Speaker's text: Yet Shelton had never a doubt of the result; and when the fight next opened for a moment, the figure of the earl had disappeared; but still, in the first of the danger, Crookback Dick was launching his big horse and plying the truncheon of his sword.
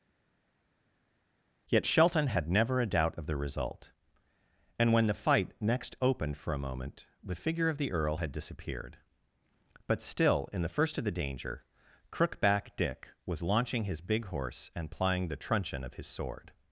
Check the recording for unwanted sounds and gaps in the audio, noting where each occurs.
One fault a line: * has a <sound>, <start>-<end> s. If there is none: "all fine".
all fine